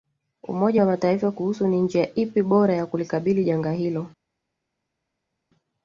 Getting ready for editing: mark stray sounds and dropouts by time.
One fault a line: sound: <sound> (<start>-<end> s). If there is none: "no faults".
no faults